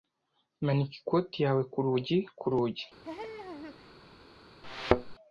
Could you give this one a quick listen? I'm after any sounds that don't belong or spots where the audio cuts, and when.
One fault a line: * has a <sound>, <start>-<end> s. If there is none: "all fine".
* has a laugh, 3.0-3.9 s
* has a thud, 4.6-5.2 s